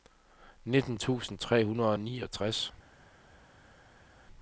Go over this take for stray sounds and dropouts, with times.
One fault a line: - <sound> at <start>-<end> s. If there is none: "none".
none